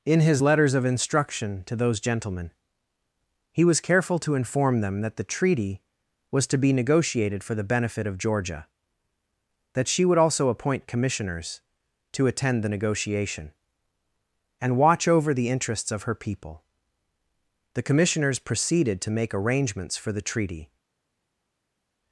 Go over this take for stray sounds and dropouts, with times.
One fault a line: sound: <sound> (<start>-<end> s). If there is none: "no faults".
no faults